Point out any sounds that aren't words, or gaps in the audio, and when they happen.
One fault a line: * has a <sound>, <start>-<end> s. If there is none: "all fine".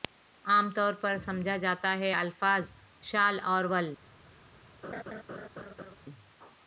* has a laugh, 4.8-6.0 s